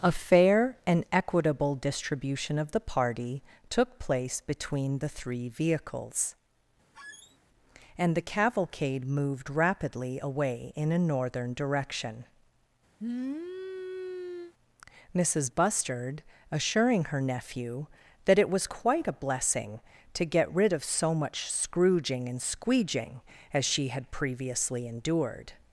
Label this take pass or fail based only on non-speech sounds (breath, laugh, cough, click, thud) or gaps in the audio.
fail